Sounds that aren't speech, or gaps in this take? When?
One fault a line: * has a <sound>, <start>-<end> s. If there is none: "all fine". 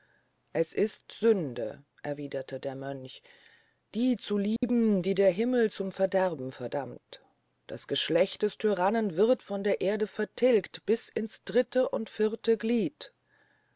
* has a dropout, 4.6-4.6 s